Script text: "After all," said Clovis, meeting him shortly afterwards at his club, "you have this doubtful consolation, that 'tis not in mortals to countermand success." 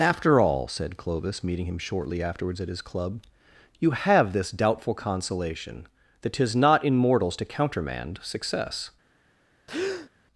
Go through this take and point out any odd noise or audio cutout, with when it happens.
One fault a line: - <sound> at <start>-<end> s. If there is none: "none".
- breath at 9.7-10.1 s